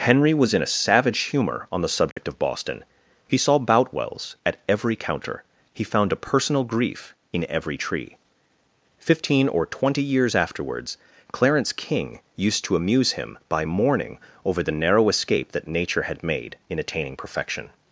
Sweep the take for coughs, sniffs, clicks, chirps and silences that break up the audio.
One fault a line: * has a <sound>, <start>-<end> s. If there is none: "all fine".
* has a dropout, 2.1-2.2 s